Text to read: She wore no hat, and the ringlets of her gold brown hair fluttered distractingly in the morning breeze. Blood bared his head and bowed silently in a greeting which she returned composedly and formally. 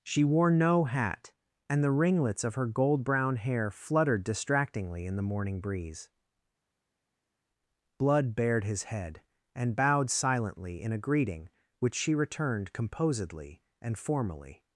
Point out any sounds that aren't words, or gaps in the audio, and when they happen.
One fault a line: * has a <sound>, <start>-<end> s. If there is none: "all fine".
all fine